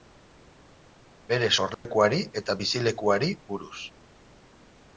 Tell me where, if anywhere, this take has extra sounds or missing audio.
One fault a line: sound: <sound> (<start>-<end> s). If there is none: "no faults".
sound: dropout (1.7-1.9 s)